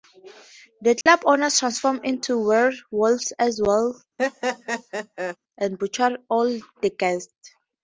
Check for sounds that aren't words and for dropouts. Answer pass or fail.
fail